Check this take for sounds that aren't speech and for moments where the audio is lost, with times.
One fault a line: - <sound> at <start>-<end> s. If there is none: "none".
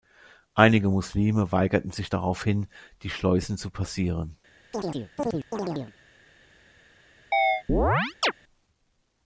- chirp at 4.7-5.9 s
- chirp at 7.3-8.3 s